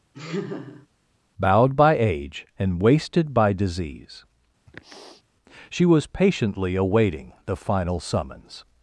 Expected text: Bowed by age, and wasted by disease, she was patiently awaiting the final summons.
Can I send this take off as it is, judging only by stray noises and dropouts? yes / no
no